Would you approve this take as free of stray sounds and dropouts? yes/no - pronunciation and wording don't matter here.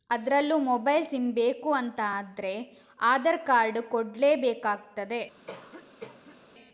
no